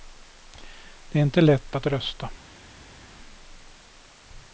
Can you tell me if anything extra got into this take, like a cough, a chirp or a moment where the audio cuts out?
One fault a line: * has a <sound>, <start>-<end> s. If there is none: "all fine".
all fine